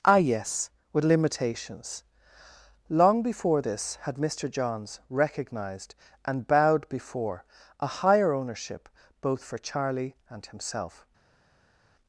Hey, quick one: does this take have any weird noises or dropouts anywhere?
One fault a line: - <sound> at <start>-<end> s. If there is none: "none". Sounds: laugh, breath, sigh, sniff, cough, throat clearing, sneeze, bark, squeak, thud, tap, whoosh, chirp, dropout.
none